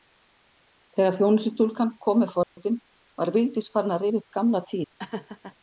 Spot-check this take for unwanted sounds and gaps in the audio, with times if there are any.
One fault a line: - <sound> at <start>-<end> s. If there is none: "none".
- dropout at 2.4-2.6 s
- laugh at 5.0-5.6 s